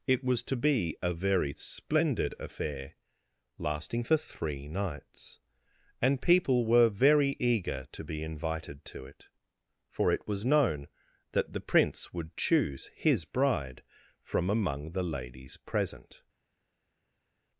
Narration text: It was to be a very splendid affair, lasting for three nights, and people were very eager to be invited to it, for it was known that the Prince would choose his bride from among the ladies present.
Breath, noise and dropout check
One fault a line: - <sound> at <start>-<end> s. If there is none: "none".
none